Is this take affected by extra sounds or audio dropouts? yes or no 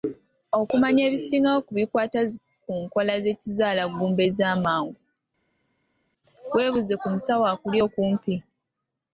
no